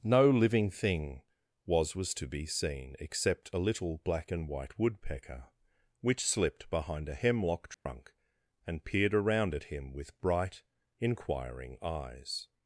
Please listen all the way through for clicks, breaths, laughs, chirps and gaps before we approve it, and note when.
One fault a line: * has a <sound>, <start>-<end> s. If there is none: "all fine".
* has a dropout, 7.7-7.9 s